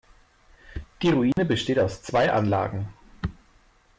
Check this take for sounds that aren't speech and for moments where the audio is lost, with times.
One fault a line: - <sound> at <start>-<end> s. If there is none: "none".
- dropout at 1.3-1.4 s